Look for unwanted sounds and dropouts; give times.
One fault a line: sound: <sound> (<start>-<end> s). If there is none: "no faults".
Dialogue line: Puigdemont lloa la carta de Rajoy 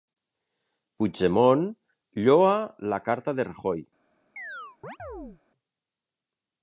sound: chirp (4.4-5.4 s)